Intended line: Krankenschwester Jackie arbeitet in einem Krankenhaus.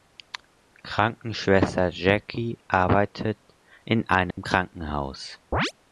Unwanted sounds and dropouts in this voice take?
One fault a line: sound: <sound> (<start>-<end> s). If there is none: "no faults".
sound: dropout (4.3-4.4 s)
sound: chirp (5.5-5.7 s)